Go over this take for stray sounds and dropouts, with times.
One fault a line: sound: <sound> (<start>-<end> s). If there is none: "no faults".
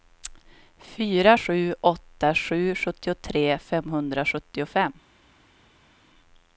no faults